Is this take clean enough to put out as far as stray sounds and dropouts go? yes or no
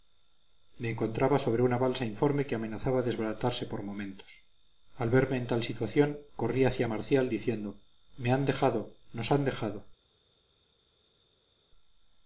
yes